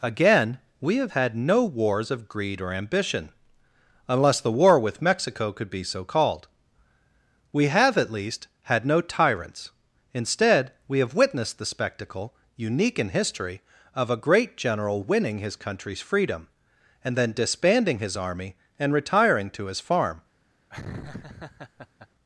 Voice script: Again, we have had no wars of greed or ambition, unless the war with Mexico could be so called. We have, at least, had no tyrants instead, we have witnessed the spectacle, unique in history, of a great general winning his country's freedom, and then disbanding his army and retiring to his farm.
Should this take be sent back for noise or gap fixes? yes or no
yes